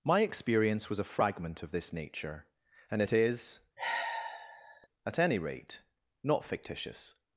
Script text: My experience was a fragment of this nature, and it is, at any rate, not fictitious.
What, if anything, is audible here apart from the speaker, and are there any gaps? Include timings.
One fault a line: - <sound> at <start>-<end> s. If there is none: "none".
- sigh at 3.8-4.9 s